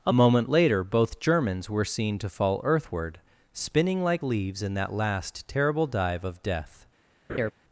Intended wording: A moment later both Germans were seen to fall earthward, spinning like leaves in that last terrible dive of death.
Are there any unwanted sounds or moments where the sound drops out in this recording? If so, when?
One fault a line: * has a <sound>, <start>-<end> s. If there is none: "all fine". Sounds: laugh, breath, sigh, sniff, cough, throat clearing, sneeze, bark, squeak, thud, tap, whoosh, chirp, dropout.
* has a laugh, 7.3-7.5 s